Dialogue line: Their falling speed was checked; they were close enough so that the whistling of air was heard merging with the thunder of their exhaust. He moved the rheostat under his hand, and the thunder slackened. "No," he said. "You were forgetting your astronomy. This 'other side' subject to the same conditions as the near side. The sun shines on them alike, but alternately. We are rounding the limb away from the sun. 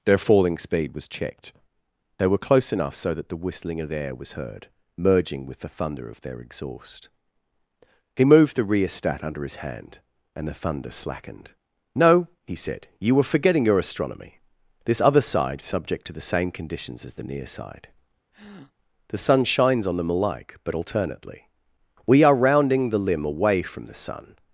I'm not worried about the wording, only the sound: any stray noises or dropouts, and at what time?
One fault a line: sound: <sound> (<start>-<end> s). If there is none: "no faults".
sound: breath (18.3-18.7 s)